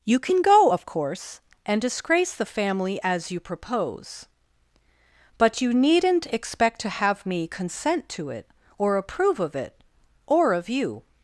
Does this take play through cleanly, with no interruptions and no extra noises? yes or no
yes